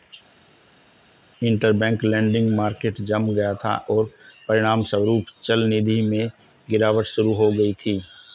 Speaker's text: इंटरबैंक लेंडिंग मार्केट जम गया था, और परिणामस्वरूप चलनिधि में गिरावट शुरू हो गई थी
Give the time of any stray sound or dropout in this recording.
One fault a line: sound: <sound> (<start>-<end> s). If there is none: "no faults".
no faults